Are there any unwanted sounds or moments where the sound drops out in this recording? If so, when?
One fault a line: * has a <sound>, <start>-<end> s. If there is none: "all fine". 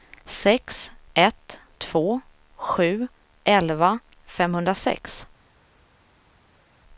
all fine